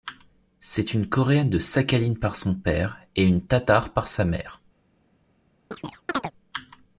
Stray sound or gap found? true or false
true